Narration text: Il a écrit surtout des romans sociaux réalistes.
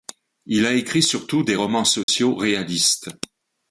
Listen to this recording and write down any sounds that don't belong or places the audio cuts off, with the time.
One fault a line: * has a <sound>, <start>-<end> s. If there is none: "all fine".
* has a dropout, 2.0-2.1 s